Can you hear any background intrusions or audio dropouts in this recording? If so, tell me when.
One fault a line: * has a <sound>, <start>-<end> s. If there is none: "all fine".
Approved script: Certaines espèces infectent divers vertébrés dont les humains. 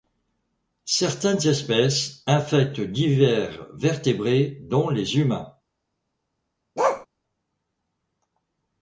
* has a bark, 6.8-7.1 s